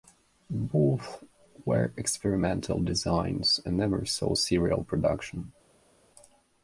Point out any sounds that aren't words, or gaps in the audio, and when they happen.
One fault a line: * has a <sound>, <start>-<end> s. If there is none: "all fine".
all fine